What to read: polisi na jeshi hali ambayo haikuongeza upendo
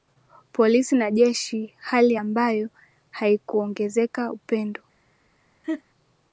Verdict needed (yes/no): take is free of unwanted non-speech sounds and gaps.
no